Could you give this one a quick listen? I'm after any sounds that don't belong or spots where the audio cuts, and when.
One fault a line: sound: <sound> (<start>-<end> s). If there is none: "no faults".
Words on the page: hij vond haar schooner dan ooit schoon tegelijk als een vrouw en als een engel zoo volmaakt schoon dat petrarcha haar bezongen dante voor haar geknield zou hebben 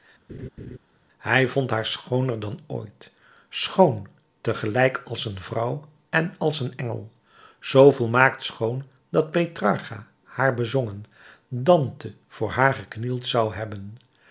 sound: laugh (0.3-0.8 s)